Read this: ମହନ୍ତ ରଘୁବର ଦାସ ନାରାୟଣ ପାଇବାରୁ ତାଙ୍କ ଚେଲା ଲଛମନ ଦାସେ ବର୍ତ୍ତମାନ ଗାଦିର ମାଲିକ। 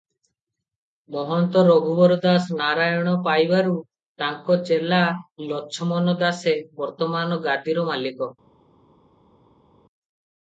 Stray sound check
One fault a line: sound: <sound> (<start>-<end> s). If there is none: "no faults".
no faults